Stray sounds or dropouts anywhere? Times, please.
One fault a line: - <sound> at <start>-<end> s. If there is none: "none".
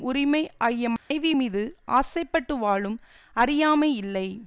- dropout at 1.0-1.1 s